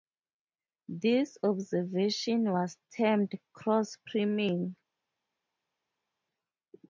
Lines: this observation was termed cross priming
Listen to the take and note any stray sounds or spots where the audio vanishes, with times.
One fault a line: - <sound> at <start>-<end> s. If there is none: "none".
none